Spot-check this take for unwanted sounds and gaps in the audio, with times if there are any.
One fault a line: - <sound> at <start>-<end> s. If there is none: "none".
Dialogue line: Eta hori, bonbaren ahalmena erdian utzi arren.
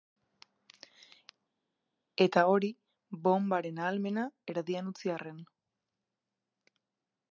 none